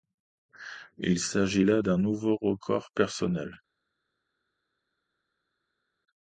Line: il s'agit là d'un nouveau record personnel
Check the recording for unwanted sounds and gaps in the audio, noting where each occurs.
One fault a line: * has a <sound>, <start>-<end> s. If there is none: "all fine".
all fine